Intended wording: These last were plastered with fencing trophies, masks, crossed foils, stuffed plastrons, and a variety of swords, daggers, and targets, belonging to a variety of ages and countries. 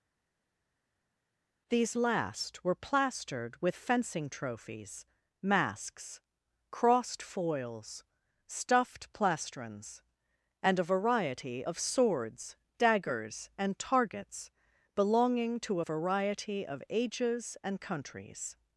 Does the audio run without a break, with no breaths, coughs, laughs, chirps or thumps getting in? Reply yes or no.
yes